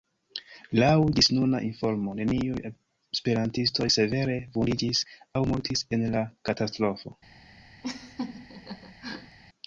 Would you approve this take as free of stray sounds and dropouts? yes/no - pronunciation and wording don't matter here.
no